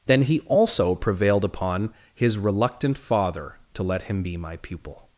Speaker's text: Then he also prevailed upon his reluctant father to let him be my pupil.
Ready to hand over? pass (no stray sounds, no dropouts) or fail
pass